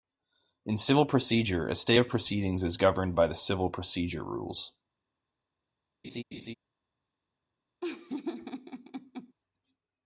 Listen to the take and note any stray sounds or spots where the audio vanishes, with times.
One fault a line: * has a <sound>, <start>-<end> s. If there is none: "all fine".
* has a laugh, 6.0-6.5 s
* has a laugh, 7.8-9.3 s